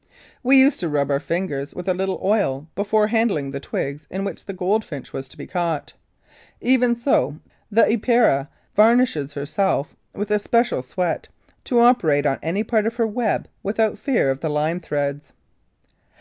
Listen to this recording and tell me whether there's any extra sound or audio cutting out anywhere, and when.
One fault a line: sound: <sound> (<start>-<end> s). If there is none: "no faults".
no faults